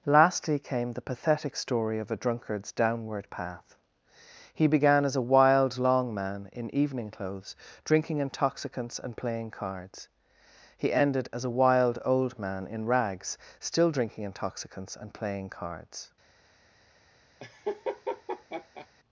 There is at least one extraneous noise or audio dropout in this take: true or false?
true